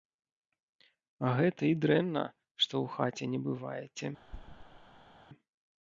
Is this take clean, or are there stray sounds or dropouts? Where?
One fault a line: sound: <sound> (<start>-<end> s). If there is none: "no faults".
sound: thud (4.2-5.2 s)